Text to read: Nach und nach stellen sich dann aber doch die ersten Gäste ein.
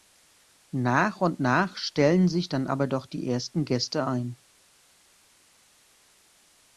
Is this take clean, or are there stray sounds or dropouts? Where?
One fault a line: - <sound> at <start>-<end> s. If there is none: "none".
none